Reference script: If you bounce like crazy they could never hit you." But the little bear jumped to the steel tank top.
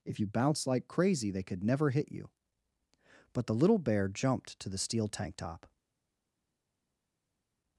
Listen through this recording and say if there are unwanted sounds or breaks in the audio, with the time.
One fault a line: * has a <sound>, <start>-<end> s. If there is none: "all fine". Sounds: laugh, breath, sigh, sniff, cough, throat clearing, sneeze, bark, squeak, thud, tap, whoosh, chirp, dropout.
all fine